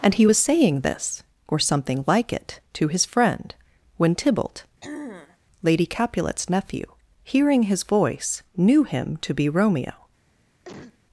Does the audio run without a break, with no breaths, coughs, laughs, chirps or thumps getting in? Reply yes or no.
no